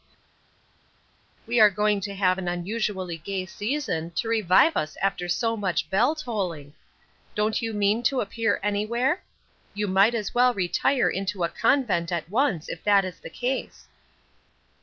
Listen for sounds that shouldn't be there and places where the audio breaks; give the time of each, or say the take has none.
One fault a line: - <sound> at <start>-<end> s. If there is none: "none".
none